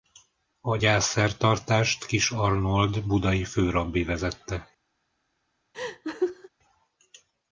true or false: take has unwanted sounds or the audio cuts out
true